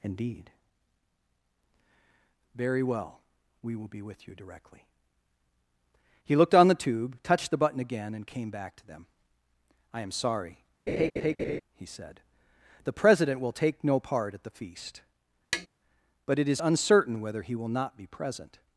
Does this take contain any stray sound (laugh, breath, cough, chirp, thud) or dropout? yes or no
yes